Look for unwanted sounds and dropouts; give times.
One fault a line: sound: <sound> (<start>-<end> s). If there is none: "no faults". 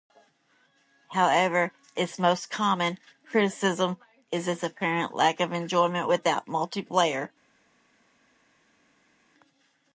no faults